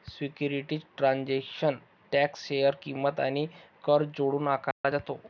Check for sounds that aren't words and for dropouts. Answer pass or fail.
fail